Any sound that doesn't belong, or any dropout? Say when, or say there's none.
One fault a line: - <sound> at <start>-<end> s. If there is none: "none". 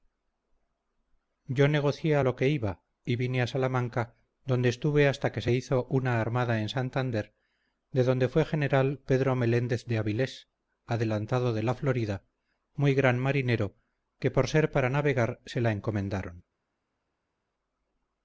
none